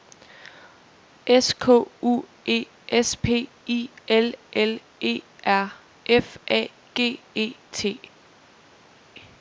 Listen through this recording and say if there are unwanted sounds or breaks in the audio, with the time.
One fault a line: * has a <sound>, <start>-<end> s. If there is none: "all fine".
all fine